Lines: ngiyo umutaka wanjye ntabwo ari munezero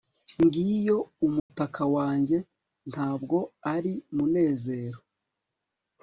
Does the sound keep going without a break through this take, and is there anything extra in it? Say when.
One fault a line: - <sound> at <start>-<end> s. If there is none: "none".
- dropout at 1.4-1.5 s